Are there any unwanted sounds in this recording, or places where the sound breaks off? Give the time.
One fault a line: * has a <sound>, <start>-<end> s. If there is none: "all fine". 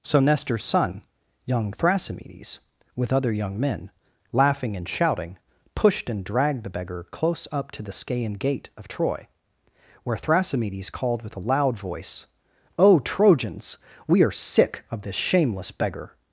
all fine